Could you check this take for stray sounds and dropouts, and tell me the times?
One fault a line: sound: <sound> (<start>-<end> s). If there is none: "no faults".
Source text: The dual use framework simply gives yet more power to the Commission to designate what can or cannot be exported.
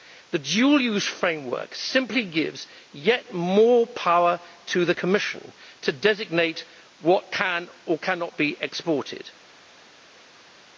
no faults